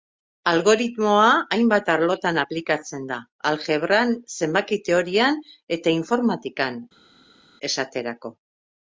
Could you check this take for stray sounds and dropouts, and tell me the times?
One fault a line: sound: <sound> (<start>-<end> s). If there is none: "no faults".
no faults